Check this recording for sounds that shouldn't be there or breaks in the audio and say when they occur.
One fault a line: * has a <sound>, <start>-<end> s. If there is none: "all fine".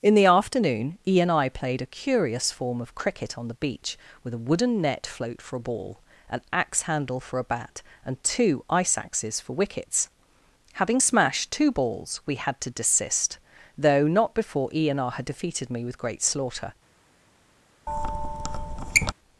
* has a squeak, 17.9-19.1 s